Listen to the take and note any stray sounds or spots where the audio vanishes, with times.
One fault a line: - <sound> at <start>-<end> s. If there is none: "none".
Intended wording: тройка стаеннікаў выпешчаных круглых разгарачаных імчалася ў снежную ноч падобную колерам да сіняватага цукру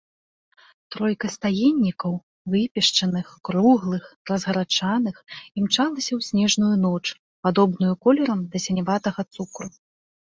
none